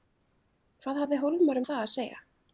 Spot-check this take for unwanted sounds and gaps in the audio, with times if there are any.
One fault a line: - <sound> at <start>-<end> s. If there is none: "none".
none